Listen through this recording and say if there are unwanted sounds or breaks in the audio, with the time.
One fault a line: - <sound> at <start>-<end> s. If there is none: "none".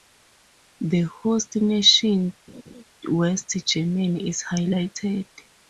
- laugh at 2.5-2.8 s